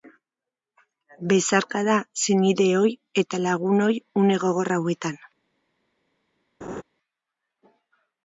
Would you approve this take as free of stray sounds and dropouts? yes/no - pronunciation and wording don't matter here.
no